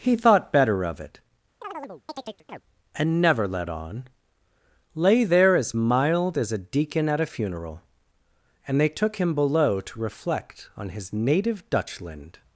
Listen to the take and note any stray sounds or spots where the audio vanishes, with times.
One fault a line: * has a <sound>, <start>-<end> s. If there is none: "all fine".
* has a chirp, 1.6-2.6 s